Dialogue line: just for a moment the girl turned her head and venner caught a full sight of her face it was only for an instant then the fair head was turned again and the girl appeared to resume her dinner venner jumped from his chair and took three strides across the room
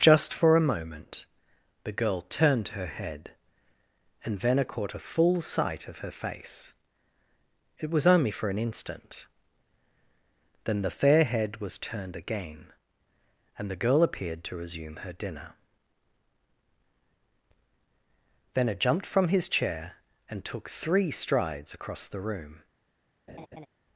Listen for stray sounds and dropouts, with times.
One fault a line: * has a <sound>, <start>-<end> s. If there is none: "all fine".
* has a laugh, 23.3-23.7 s